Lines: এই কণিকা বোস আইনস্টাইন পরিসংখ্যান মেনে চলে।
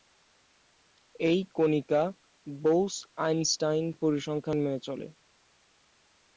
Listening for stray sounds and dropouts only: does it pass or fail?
pass